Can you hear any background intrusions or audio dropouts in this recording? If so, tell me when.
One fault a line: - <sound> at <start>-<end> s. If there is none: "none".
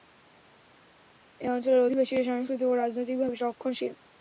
none